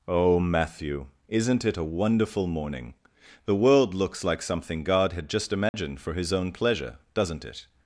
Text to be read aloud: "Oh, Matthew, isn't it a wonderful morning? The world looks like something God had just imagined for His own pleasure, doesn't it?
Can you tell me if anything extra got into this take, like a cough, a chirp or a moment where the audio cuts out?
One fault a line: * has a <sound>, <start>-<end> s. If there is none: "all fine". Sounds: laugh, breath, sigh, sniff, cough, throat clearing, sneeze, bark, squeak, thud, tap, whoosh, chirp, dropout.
* has a dropout, 5.7-5.7 s